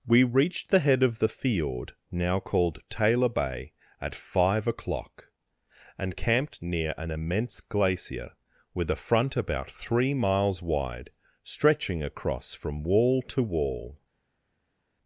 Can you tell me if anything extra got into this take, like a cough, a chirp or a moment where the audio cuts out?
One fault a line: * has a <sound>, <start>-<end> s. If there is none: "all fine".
all fine